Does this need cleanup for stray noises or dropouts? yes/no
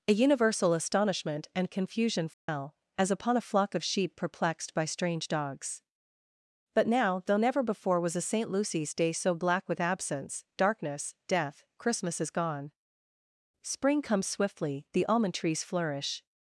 yes